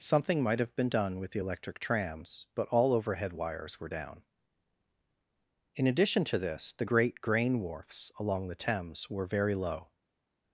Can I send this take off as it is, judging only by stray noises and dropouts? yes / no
yes